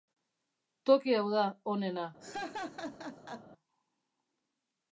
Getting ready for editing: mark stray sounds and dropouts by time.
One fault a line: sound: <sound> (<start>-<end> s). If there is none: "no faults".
sound: laugh (2.2-3.5 s)